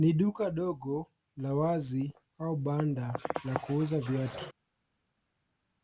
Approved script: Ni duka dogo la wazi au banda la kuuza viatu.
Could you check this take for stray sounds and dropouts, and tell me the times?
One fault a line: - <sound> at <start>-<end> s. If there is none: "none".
none